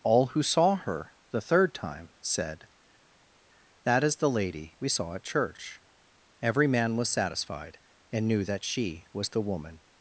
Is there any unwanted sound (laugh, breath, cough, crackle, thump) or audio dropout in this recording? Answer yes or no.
no